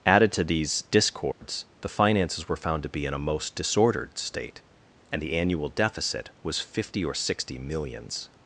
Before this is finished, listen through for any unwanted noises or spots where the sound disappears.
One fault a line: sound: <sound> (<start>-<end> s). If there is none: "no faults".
sound: dropout (1.3-1.4 s)